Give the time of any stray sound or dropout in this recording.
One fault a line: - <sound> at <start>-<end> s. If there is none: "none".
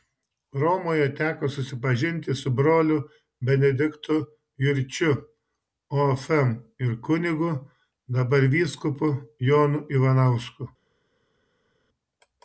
none